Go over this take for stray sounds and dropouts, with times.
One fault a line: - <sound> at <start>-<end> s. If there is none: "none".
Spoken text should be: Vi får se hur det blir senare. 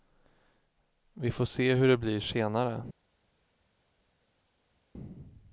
none